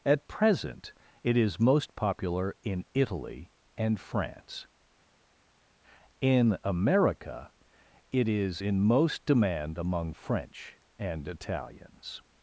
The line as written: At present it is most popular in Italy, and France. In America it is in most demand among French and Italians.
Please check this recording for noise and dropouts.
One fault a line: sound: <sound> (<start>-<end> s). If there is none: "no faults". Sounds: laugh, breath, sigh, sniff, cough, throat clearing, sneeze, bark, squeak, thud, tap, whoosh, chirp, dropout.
no faults